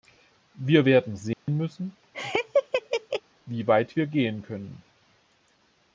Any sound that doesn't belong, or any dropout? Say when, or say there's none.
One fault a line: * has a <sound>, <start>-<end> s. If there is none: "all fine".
* has a dropout, 1.3-1.5 s
* has a laugh, 2.1-3.2 s